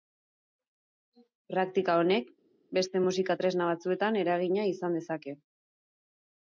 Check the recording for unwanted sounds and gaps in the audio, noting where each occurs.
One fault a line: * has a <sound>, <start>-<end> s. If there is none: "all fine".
all fine